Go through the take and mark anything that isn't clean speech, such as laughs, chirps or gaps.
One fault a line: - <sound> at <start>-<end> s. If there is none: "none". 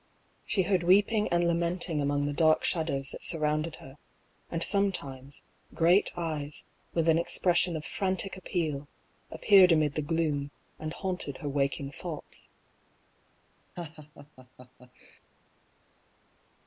- laugh at 13.8-15.2 s